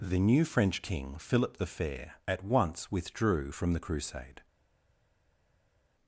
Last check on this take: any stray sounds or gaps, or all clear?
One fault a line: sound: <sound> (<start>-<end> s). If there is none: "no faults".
no faults